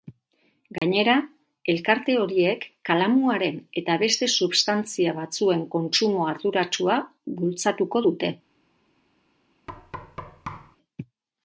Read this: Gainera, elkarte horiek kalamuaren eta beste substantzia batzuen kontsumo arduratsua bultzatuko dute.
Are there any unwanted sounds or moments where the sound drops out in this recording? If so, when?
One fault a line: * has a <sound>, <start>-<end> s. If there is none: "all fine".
* has a dropout, 0.8-0.8 s
* has a thud, 9.7-10.8 s